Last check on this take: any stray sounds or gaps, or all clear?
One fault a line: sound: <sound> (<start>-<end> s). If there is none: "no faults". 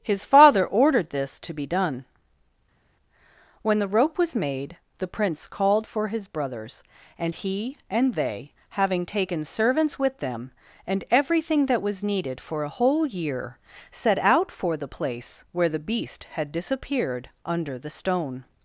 no faults